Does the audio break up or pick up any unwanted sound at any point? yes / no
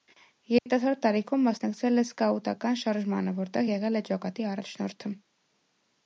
yes